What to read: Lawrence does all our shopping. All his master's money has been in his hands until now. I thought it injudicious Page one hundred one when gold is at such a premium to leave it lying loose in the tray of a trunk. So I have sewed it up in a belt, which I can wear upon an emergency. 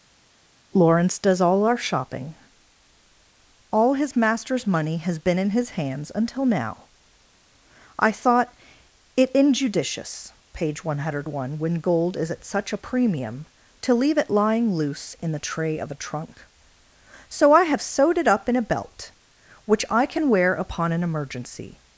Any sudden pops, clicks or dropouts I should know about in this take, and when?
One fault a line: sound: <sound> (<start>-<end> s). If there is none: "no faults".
no faults